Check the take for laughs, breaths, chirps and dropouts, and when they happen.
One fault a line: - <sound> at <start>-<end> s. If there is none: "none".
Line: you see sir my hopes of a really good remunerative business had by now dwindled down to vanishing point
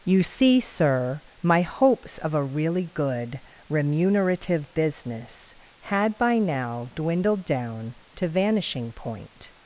none